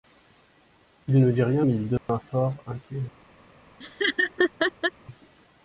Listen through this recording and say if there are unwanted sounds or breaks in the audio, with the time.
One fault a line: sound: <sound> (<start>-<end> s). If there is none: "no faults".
sound: dropout (2.0-2.1 s)
sound: laugh (3.8-4.9 s)